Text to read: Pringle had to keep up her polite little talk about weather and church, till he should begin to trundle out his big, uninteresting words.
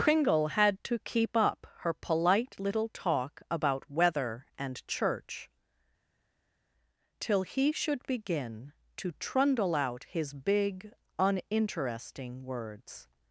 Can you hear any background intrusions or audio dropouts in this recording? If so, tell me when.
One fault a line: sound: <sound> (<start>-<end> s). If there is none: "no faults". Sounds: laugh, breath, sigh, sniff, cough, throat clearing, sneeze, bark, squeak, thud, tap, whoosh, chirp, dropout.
no faults